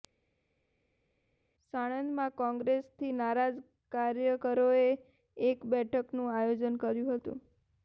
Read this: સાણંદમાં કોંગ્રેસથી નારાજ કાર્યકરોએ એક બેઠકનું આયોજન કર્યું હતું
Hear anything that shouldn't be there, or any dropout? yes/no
no